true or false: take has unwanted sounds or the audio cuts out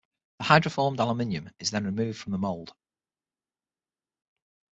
false